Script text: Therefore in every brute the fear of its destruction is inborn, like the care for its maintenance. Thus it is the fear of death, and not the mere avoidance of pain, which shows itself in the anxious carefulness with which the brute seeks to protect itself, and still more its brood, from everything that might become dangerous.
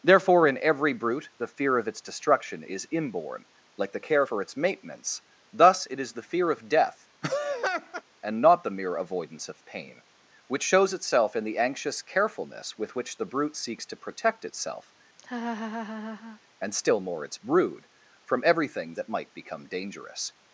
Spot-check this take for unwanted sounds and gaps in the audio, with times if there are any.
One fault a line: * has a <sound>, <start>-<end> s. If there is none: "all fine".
* has a laugh, 7.2-8.0 s
* has a laugh, 15.2-16.4 s